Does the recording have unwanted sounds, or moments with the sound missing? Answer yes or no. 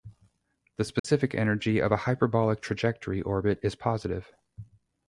yes